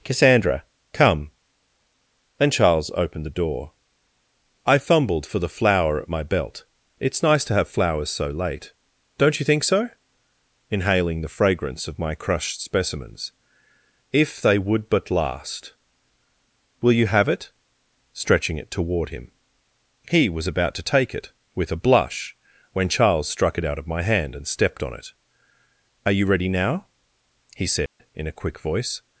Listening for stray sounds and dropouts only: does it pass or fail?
fail